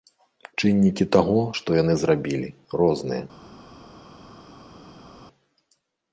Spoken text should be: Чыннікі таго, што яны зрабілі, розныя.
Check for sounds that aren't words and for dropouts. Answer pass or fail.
pass